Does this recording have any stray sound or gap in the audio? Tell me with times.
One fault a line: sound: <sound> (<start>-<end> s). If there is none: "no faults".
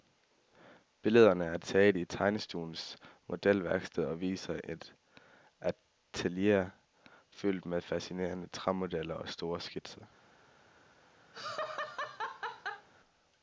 sound: laugh (11.3-12.9 s)